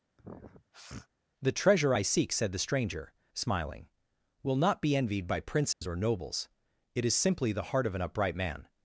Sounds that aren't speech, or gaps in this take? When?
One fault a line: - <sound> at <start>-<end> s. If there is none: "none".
- sniff at 0.2-1.1 s
- dropout at 5.7-5.8 s